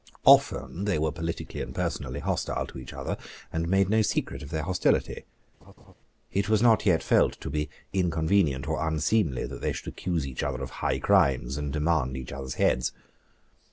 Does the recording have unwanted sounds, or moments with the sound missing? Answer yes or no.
yes